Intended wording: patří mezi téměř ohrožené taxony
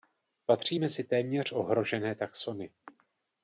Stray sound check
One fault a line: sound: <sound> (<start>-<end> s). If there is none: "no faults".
no faults